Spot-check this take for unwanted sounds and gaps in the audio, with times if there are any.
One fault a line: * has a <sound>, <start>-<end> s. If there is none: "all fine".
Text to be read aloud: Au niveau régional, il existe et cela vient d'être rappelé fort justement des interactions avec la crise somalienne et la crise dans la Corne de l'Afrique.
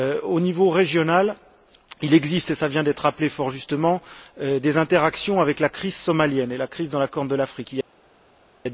all fine